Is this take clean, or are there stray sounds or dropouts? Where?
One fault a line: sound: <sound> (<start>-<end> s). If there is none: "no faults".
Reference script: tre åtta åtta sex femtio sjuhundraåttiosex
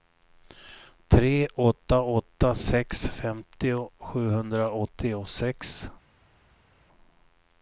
no faults